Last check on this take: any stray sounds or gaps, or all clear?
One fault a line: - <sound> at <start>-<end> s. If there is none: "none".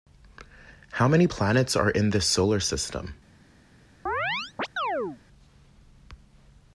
- chirp at 4.1-5.2 s